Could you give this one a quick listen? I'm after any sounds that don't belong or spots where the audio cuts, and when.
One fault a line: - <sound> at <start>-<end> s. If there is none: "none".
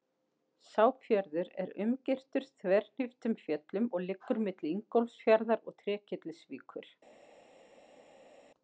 none